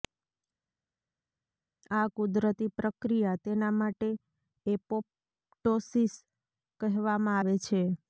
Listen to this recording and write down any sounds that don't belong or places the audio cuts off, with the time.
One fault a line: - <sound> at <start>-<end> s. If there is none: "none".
none